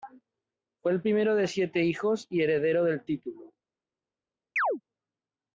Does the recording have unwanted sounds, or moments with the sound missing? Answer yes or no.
yes